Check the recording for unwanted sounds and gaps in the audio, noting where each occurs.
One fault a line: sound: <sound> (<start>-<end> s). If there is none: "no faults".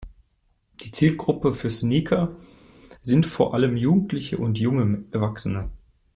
no faults